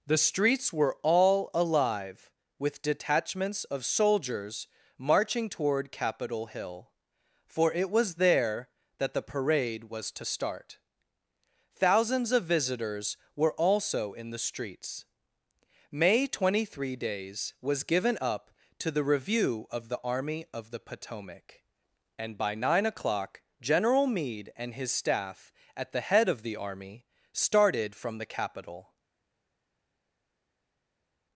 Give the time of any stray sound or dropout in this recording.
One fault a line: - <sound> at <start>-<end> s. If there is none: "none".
none